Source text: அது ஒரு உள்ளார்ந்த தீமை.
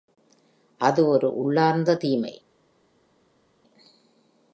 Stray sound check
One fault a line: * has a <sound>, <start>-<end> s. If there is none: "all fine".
all fine